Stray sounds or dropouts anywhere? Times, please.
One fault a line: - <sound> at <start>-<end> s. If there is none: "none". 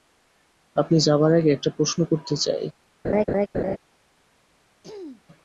- laugh at 3.0-3.8 s
- throat clearing at 4.8-5.2 s